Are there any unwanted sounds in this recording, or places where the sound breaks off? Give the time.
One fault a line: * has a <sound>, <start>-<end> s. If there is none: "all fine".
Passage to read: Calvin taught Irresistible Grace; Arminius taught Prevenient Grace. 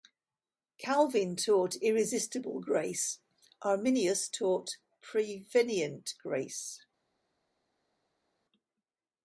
all fine